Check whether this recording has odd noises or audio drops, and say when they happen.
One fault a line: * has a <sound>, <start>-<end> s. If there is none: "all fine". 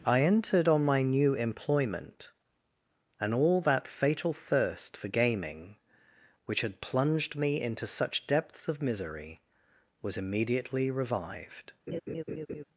* has a laugh, 11.9-12.6 s